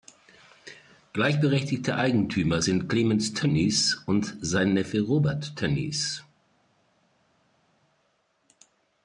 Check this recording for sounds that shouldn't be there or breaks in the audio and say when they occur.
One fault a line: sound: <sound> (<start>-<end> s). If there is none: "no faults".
no faults